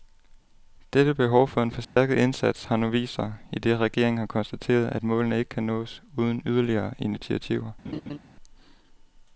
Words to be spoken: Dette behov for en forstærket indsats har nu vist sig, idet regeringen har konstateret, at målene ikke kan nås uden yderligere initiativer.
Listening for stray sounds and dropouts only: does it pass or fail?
fail